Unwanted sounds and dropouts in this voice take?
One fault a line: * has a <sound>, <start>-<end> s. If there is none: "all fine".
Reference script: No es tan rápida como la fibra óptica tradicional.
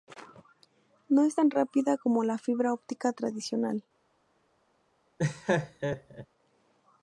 * has a laugh, 5.2-6.3 s